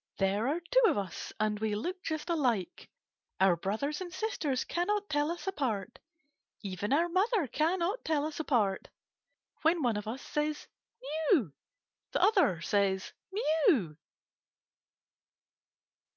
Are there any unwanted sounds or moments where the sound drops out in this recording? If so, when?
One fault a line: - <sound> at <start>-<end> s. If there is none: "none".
none